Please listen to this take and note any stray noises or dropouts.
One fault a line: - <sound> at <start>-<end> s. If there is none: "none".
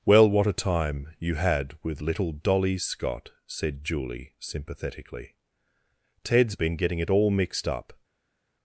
none